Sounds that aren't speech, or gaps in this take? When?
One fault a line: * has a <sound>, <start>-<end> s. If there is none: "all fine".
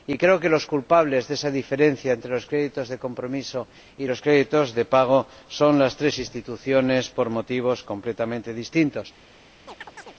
* has a chirp, 9.7-10.2 s